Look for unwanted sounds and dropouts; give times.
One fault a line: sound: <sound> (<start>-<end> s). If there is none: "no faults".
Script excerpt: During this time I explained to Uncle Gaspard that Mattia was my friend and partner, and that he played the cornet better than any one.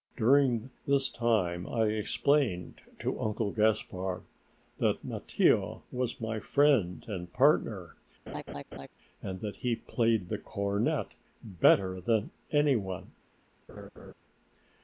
sound: laugh (8.3-8.9 s)
sound: laugh (13.7-14.1 s)